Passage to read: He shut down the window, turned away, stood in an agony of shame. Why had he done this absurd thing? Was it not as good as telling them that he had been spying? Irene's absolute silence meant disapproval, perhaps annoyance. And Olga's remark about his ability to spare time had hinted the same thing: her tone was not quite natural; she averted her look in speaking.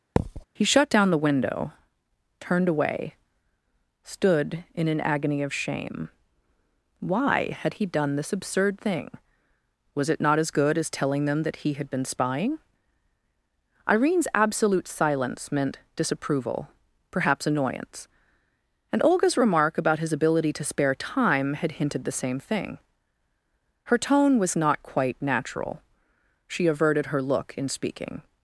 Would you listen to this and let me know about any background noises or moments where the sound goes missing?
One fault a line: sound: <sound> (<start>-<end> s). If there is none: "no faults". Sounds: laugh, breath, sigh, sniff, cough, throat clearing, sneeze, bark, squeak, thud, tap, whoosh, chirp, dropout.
sound: thud (0.2-0.4 s)